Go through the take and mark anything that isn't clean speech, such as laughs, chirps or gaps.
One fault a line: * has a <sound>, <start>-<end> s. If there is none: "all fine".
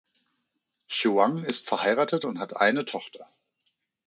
all fine